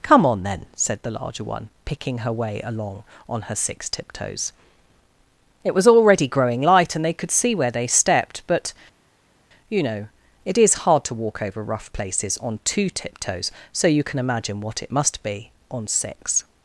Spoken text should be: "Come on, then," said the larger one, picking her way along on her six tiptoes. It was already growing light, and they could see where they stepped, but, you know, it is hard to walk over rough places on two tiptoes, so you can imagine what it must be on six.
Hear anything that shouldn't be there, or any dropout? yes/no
no